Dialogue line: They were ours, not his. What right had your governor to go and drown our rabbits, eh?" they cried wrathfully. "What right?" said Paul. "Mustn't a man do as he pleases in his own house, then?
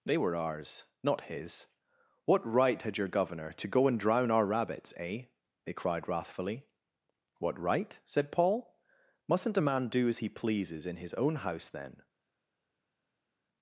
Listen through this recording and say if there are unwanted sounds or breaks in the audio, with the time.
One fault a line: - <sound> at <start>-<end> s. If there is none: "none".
none